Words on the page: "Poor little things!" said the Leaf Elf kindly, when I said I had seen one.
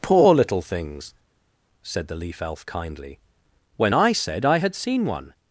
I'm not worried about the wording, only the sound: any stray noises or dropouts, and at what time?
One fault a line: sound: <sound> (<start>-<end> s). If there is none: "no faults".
no faults